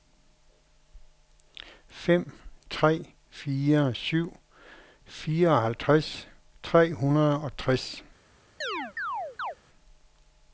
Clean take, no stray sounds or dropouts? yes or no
no